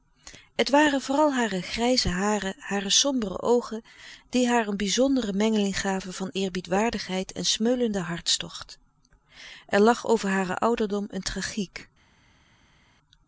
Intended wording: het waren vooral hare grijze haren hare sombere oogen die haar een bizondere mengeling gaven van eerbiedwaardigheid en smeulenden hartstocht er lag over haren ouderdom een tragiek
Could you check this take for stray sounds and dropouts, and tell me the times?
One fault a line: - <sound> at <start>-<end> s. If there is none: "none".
none